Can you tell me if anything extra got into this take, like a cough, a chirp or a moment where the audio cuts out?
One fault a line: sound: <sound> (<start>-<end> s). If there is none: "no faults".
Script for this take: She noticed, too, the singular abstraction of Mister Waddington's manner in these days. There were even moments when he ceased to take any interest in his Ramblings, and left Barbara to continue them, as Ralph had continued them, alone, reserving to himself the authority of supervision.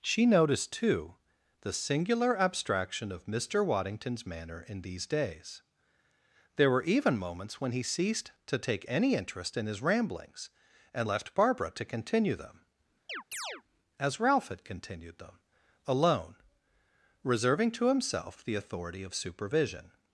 sound: chirp (13.1-13.6 s)